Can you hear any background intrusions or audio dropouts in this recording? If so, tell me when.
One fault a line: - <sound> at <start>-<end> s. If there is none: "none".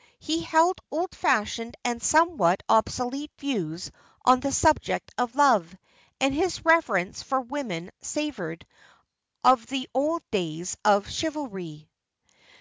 none